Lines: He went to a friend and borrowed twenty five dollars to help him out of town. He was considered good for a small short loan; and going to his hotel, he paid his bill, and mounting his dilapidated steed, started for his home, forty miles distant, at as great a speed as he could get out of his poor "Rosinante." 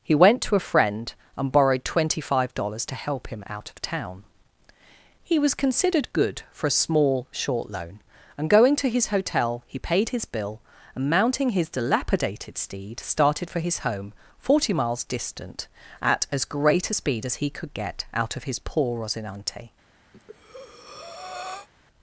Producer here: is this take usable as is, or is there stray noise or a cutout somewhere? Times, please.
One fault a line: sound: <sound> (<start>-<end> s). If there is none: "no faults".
sound: breath (20.1-21.7 s)